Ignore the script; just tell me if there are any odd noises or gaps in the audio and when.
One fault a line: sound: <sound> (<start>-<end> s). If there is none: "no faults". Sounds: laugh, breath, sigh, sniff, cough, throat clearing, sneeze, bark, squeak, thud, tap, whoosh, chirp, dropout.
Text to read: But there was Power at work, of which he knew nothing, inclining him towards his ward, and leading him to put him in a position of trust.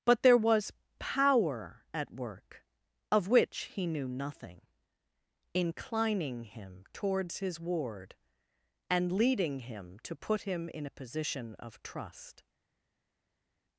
no faults